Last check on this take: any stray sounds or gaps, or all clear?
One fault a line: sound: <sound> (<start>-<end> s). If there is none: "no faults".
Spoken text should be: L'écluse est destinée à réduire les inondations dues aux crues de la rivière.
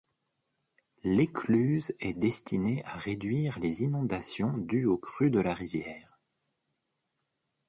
no faults